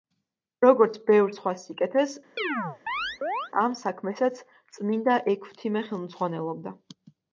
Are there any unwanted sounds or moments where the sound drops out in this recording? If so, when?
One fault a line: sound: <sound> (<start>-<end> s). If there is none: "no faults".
sound: chirp (2.4-3.5 s)